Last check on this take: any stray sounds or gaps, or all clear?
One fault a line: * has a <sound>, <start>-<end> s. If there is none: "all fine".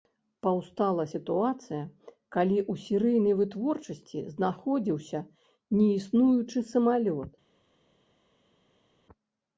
all fine